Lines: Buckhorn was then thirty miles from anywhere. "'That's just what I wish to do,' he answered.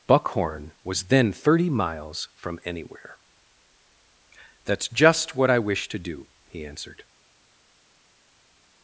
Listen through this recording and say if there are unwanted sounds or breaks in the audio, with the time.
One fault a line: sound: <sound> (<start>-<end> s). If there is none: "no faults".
no faults